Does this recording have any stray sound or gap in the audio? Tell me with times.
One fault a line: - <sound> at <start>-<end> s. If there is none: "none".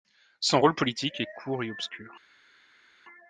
none